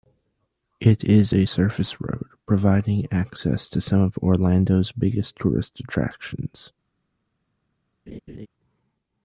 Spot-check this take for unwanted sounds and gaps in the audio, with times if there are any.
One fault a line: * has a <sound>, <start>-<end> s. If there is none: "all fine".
* has a laugh, 8.1-8.5 s